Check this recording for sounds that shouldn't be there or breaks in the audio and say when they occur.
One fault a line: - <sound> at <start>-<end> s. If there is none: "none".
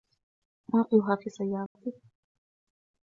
- dropout at 1.7-1.8 s